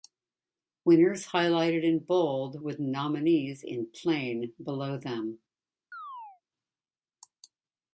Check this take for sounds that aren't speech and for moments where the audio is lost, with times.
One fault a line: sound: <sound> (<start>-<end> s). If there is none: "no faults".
sound: chirp (5.9-6.4 s)